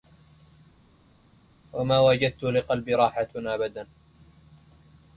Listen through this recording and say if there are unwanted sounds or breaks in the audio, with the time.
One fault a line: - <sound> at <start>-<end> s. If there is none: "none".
none